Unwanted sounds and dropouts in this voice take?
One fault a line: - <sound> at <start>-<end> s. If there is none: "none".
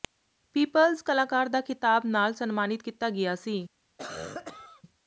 - cough at 4.0-4.8 s